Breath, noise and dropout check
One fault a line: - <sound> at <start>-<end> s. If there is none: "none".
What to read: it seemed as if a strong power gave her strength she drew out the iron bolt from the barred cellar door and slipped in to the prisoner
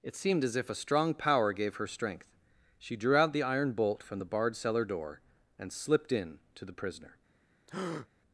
- breath at 7.7-8.1 s